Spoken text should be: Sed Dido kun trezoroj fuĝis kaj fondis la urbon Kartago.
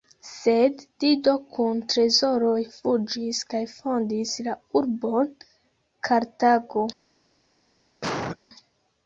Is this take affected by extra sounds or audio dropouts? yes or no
yes